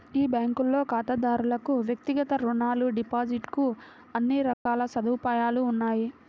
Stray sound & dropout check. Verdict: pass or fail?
fail